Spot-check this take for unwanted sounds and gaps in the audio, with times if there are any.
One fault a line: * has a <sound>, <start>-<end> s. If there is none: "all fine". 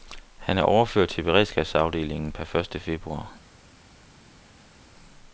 all fine